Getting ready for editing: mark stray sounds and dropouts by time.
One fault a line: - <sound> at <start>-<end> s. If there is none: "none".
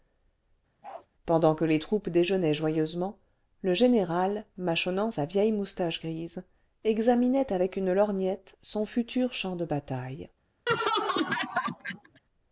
- bark at 0.8-1.1 s
- laugh at 10.7-12.2 s